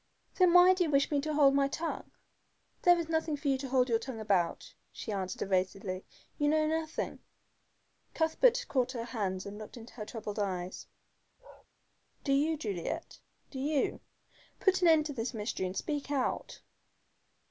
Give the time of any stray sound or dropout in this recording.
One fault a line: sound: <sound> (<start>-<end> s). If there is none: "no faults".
sound: bark (11.4-11.7 s)